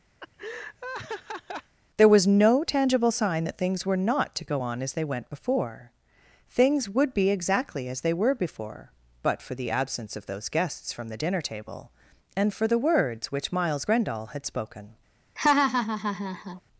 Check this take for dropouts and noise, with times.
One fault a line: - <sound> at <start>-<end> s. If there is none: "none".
- laugh at 0.2-1.8 s
- laugh at 15.4-16.6 s